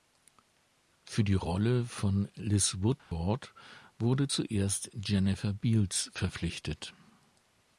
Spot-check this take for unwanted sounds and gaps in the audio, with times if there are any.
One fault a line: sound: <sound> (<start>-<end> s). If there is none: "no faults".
sound: dropout (3.0-3.1 s)